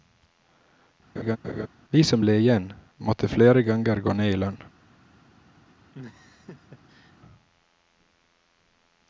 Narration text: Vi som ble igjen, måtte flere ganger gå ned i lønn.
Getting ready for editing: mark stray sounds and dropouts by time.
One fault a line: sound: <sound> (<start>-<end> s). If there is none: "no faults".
sound: laugh (1.2-1.7 s)
sound: laugh (5.9-7.2 s)